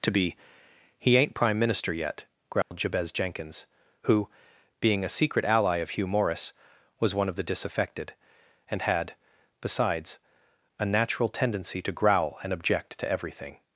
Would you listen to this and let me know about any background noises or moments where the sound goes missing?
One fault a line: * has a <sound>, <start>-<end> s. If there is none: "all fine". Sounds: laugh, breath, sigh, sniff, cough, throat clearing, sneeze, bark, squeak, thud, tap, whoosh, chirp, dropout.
* has a dropout, 2.6-2.7 s